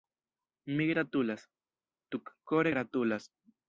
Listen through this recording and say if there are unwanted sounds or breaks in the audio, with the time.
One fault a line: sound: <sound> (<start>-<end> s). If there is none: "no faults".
no faults